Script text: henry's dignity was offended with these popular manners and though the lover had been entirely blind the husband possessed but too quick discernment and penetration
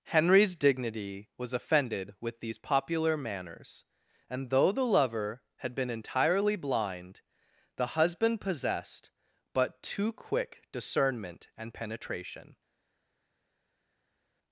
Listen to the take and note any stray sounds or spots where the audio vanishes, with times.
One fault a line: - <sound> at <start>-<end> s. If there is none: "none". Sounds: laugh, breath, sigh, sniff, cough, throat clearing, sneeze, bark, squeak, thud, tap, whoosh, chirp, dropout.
none